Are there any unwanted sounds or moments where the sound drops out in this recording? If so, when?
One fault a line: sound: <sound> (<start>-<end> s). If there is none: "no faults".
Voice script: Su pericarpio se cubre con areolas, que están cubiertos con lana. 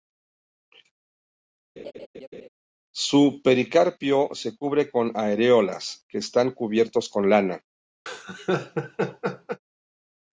sound: laugh (1.8-2.5 s)
sound: laugh (8.1-9.6 s)